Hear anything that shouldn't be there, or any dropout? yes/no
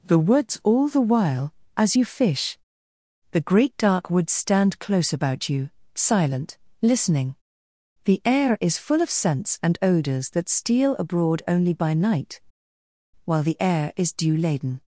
no